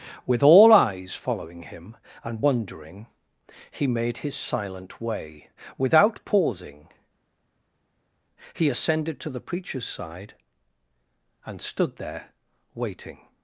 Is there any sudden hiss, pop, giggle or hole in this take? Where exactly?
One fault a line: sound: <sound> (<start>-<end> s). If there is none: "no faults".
no faults